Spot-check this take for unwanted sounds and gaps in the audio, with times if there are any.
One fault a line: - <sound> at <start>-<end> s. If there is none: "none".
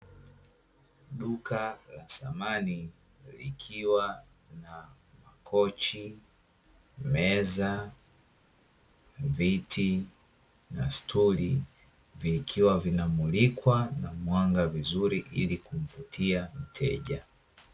none